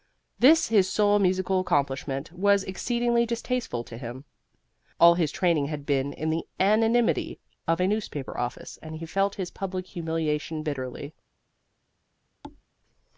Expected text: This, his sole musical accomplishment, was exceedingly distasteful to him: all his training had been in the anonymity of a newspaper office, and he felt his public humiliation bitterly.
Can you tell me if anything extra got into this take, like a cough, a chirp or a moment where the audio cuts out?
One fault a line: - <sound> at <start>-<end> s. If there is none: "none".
- thud at 12.4-12.6 s